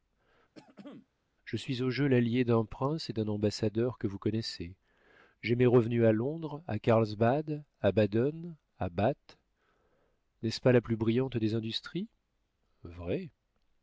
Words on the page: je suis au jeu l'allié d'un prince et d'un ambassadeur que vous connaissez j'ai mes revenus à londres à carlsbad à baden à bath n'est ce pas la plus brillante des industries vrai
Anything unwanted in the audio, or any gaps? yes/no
yes